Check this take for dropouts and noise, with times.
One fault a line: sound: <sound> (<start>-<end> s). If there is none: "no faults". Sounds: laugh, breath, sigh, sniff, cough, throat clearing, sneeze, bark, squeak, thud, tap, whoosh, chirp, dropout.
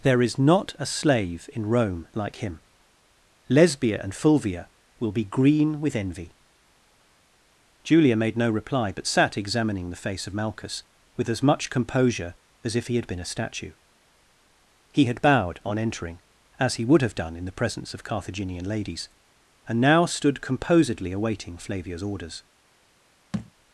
sound: thud (23.3-23.5 s)